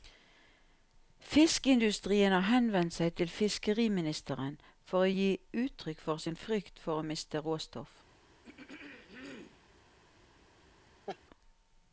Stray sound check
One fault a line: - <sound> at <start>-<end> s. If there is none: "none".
- throat clearing at 8.4-9.7 s
- laugh at 11.1-11.2 s